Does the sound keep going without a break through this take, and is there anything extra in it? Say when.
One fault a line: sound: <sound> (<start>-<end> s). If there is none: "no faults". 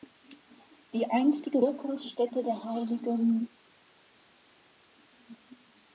no faults